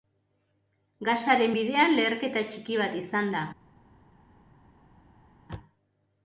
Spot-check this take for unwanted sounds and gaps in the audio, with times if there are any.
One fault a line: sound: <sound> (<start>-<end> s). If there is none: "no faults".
no faults